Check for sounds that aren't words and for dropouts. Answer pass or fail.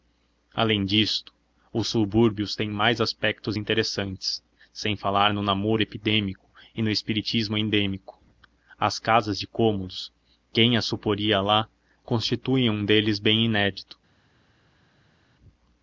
pass